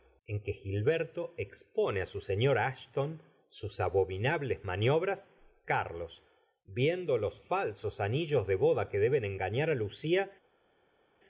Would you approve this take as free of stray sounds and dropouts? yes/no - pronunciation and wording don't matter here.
yes